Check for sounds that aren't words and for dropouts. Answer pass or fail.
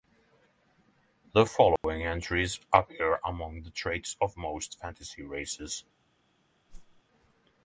fail